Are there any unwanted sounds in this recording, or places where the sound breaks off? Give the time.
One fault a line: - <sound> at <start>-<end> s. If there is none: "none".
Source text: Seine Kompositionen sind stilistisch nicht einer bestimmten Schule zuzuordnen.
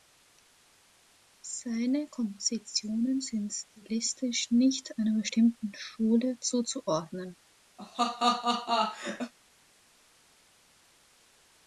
- laugh at 7.8-9.3 s